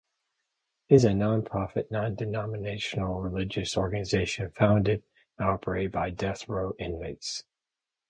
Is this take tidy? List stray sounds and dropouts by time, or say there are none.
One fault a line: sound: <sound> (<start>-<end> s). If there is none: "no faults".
no faults